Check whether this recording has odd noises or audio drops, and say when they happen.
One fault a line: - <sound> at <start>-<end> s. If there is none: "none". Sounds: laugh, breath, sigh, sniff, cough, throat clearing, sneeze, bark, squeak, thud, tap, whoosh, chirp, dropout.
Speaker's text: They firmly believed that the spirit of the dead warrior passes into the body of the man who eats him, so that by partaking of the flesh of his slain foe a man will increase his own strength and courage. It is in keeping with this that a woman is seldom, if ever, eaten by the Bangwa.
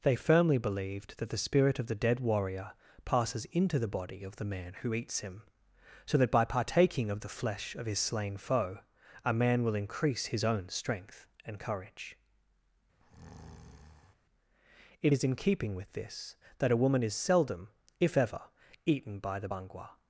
- breath at 13.0-14.1 s